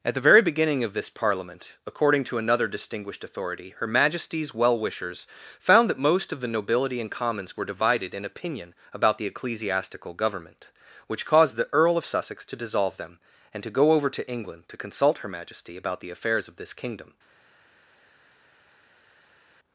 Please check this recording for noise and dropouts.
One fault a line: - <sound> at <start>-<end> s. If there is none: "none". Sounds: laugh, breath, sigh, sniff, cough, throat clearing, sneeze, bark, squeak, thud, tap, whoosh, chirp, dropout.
none